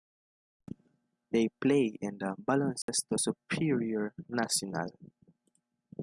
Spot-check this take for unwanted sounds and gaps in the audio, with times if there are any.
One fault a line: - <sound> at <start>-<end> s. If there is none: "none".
- dropout at 2.8-2.9 s